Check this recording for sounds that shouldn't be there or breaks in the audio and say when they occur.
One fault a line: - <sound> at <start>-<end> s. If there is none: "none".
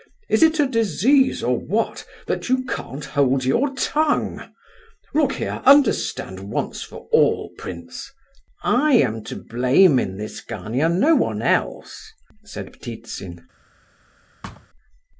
- thud at 14.4-14.7 s